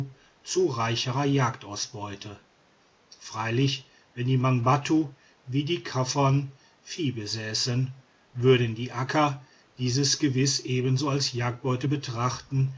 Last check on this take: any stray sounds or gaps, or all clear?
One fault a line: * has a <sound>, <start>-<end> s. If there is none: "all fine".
all fine